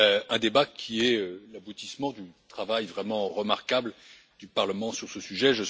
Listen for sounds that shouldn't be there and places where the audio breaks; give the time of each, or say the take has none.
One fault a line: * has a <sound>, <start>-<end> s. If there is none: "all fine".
all fine